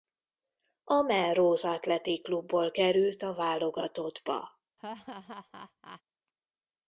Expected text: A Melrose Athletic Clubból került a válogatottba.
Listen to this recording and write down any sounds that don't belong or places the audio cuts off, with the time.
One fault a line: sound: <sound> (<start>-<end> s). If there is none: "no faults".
sound: laugh (4.8-6.0 s)